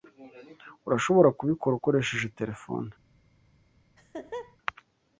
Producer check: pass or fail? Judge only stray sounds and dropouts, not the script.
fail